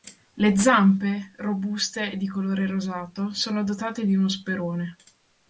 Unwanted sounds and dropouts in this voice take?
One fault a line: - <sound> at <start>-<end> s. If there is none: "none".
none